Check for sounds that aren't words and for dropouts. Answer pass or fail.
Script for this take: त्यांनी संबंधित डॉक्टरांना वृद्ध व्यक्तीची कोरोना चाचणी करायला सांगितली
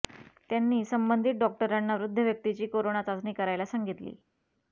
pass